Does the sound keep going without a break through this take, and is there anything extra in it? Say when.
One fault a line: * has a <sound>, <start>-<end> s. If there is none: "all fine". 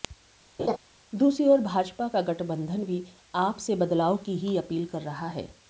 * has a laugh, 0.6-0.8 s